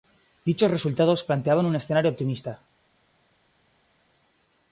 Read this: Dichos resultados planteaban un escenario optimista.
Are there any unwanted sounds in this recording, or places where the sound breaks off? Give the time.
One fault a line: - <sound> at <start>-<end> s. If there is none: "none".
none